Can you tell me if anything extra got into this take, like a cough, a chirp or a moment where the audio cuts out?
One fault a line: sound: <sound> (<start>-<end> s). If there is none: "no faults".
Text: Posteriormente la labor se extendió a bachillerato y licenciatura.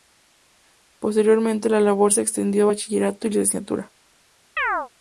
sound: chirp (4.6-4.9 s)